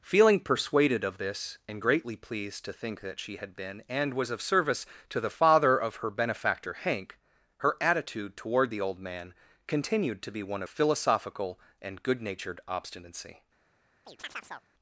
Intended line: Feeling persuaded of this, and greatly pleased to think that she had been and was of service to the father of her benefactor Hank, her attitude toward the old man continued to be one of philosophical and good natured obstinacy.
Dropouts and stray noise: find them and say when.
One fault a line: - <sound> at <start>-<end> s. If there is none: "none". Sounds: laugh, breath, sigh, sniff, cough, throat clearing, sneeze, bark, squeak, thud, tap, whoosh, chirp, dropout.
- chirp at 14.1-14.7 s